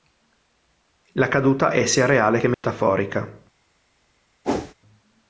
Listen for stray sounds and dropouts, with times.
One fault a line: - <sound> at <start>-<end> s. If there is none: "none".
- dropout at 2.5-2.6 s
- whoosh at 4.4-4.7 s